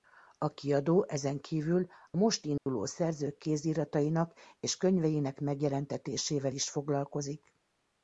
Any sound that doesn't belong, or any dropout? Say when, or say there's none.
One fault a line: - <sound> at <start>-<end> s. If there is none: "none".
- dropout at 2.6-2.7 s